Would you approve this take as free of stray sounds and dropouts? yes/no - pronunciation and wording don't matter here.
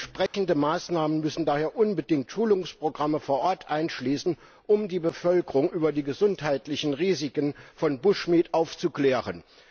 no